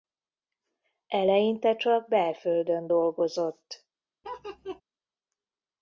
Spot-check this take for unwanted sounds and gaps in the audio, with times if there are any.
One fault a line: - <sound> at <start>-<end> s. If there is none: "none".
- laugh at 4.2-4.8 s